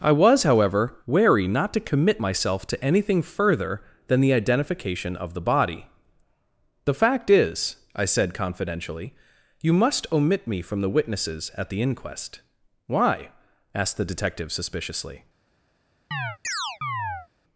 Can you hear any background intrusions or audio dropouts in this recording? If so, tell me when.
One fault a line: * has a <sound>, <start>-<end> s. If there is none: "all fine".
* has a chirp, 16.1-17.3 s